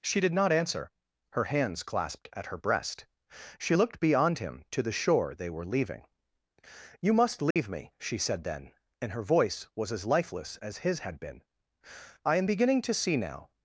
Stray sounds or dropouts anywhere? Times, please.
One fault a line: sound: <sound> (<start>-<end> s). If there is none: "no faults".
sound: dropout (7.5-7.6 s)